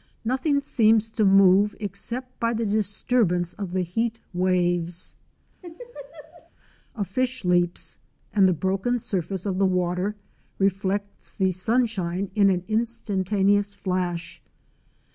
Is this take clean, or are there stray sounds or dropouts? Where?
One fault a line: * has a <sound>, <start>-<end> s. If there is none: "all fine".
* has a laugh, 5.6-6.5 s